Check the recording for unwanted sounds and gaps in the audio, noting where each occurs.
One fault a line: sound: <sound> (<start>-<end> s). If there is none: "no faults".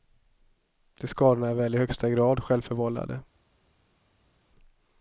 no faults